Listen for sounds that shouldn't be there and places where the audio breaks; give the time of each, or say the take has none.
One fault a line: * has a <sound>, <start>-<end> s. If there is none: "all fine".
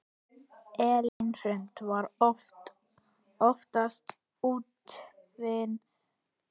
* has a dropout, 1.1-1.2 s